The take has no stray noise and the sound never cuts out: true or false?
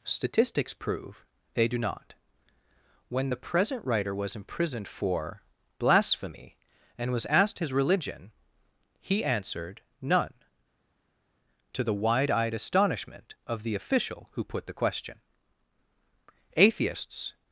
true